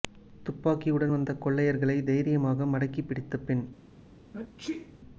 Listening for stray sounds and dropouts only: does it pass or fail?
fail